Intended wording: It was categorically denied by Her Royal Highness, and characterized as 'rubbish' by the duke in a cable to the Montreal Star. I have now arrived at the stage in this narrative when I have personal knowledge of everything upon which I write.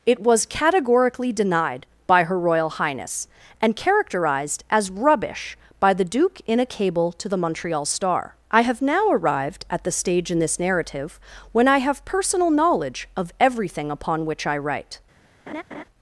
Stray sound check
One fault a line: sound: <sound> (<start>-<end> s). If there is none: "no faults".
sound: laugh (15.5-15.8 s)